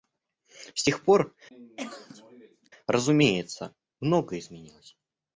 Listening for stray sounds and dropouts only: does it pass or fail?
fail